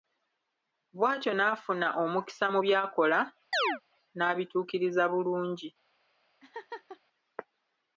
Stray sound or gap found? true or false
true